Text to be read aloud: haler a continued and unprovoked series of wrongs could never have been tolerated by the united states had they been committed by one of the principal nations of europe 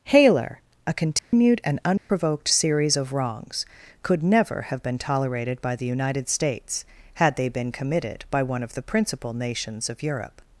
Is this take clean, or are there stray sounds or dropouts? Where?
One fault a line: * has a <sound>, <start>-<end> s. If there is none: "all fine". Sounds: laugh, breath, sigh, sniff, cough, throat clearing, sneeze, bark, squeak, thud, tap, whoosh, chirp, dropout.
* has a dropout, 1.2-1.3 s
* has a dropout, 2.0-2.1 s